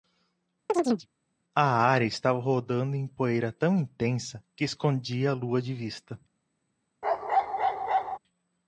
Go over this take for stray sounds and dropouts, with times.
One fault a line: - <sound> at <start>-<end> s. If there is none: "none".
- chirp at 0.7-1.1 s
- bark at 7.0-8.2 s